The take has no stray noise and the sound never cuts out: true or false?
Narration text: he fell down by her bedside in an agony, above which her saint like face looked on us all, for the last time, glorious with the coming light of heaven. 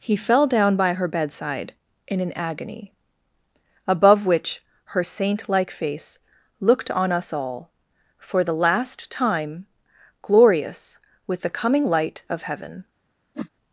false